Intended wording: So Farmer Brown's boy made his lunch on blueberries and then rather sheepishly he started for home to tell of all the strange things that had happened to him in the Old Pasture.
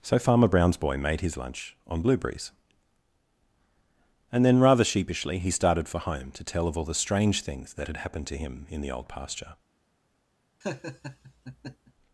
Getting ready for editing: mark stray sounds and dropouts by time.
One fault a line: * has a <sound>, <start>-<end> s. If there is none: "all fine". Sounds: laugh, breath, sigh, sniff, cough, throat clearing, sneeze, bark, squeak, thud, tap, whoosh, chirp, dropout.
* has a laugh, 10.6-11.9 s